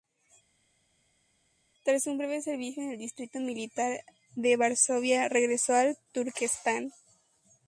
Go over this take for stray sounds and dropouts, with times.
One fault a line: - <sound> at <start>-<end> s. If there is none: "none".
none